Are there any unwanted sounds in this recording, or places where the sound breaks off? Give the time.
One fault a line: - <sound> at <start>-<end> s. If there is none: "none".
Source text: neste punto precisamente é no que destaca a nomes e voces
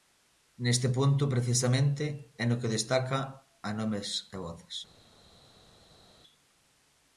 none